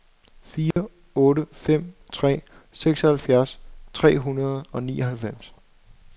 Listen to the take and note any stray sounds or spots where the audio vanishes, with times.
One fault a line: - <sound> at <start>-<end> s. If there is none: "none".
- dropout at 0.7-0.8 s